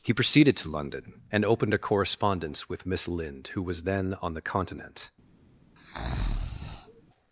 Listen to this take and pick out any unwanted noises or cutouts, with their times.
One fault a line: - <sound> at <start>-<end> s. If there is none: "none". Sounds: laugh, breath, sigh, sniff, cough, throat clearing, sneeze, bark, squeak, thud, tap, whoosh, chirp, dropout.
- breath at 5.8-7.0 s